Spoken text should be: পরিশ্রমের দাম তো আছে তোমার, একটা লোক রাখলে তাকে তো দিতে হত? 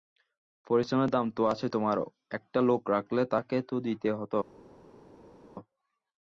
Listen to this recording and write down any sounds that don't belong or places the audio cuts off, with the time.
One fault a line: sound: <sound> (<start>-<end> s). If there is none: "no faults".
no faults